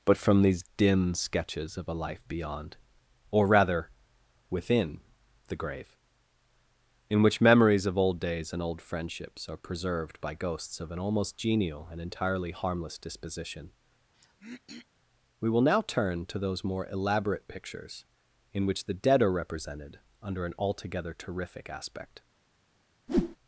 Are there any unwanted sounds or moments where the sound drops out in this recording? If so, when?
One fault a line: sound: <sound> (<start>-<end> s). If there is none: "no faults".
sound: throat clearing (14.1-14.9 s)
sound: whoosh (23.1-23.4 s)